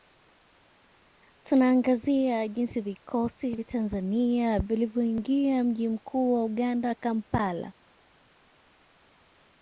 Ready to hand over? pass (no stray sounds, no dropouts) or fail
pass